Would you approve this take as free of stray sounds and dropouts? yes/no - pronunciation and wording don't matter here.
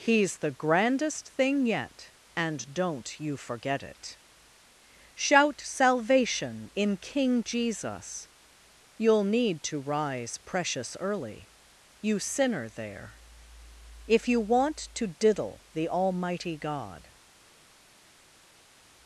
yes